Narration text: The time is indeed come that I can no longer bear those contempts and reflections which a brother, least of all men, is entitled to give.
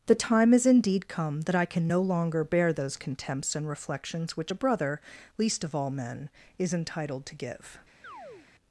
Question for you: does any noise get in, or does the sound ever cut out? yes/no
yes